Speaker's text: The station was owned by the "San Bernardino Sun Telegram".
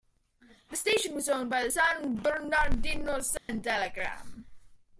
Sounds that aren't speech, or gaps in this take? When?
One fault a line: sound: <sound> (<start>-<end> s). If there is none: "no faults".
sound: dropout (3.4-3.5 s)